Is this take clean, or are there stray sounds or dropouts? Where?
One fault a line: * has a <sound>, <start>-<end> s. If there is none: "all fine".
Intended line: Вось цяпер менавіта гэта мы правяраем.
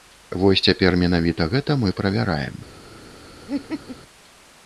* has a laugh, 3.5-4.0 s